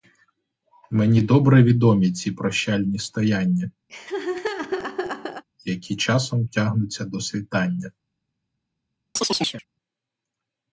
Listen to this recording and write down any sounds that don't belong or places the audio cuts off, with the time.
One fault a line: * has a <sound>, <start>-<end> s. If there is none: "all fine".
* has a laugh, 3.9-5.4 s
* has a chirp, 9.2-9.6 s